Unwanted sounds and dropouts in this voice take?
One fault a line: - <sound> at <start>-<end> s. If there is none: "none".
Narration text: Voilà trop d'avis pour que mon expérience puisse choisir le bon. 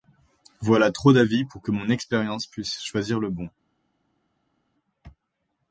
none